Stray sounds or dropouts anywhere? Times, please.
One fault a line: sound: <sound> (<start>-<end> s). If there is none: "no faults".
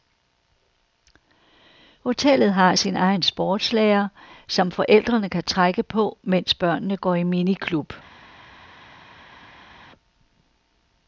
no faults